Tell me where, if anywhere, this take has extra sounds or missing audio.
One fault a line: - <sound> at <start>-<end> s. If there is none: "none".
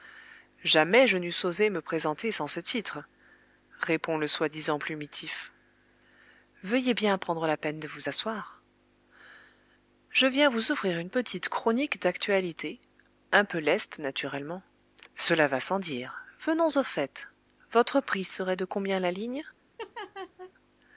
- laugh at 19.8-20.5 s